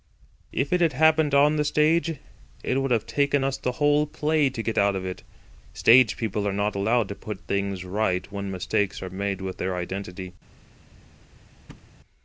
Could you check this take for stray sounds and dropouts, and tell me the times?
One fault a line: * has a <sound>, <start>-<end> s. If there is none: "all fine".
* has a thud, 11.7-11.9 s